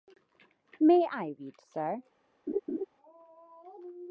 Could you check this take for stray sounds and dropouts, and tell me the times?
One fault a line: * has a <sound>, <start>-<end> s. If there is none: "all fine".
* has a laugh, 2.5-2.9 s